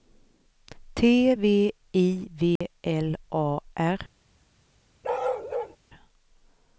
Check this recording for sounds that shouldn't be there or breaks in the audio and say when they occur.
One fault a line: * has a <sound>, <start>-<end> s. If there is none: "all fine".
* has a dropout, 2.6-2.6 s
* has a bark, 5.0-5.8 s